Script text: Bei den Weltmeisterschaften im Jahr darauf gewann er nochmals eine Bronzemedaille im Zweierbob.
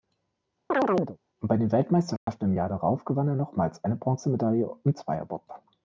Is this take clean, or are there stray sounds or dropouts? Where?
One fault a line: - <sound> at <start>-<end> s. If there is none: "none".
- chirp at 0.7-1.2 s
- dropout at 2.2-2.3 s